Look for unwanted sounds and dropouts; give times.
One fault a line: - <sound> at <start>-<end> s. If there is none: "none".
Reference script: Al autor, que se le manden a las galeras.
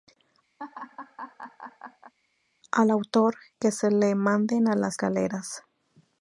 - laugh at 0.6-2.1 s